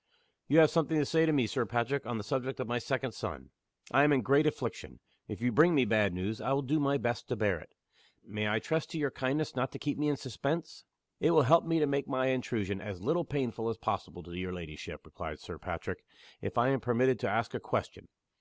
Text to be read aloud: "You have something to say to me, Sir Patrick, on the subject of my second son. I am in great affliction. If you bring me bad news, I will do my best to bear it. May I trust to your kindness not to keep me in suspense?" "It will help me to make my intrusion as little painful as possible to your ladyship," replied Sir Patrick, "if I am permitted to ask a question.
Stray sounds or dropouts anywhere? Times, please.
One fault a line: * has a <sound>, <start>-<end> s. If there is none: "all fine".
all fine